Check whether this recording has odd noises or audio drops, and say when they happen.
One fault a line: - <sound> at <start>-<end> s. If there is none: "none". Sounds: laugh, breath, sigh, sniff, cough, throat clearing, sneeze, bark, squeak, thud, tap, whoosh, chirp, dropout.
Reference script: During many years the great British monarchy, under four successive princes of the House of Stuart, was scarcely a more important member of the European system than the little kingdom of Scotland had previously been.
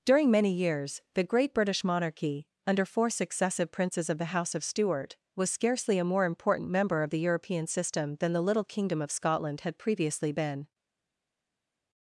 none